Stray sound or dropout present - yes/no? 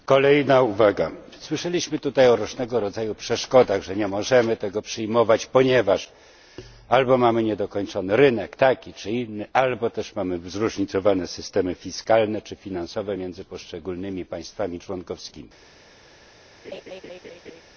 yes